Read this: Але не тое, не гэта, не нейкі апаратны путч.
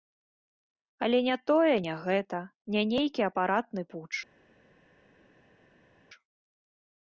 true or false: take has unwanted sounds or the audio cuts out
false